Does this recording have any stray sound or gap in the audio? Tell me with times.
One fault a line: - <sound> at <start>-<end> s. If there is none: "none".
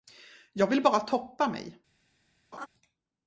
- laugh at 2.5-2.7 s